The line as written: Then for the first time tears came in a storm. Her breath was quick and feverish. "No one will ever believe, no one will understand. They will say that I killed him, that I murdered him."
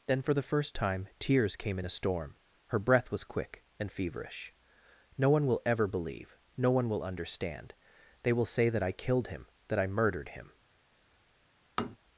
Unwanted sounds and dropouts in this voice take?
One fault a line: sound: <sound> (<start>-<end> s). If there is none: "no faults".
sound: tap (11.8-12.0 s)